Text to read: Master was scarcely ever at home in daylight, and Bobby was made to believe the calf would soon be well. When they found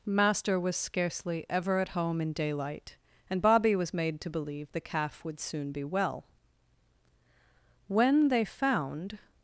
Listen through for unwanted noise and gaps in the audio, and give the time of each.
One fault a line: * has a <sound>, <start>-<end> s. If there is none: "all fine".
all fine